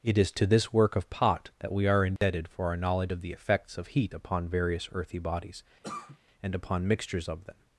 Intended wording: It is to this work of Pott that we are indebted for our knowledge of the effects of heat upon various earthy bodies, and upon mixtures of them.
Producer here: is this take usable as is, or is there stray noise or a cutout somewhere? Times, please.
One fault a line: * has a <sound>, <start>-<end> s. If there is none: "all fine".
* has a dropout, 2.2-2.2 s
* has a cough, 5.8-6.2 s